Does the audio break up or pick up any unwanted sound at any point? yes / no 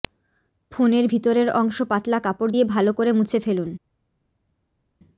no